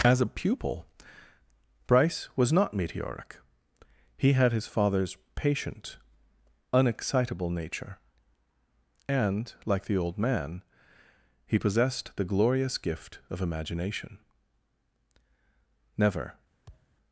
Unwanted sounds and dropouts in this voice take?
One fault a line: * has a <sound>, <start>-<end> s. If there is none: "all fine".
* has a thud, 16.7-17.0 s